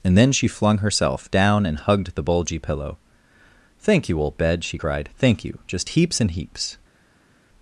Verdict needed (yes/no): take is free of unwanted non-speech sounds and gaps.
yes